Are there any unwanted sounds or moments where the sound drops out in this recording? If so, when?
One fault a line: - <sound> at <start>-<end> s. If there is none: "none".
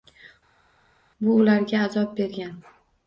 none